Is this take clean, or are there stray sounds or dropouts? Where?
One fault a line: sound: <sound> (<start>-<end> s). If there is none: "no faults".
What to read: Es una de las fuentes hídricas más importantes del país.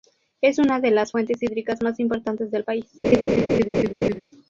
sound: laugh (3.0-4.2 s)